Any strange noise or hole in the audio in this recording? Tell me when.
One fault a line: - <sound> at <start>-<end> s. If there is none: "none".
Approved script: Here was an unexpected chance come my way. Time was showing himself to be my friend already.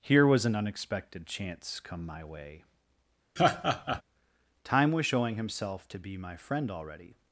- laugh at 3.4-4.0 s